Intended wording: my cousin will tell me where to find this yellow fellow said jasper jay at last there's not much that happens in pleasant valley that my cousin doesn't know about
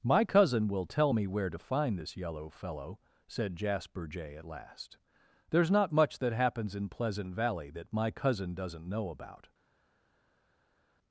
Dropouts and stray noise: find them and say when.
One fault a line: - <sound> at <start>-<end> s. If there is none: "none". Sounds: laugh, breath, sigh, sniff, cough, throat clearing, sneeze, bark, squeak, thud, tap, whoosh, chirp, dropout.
none